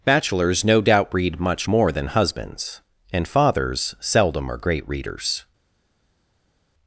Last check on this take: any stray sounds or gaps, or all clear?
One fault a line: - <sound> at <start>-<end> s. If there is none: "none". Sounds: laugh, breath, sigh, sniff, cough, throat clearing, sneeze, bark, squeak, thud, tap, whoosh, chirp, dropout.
none